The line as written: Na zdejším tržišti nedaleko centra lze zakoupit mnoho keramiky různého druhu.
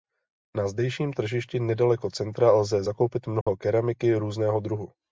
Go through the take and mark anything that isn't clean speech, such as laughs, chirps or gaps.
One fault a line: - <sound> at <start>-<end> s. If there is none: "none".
- dropout at 3.4-3.5 s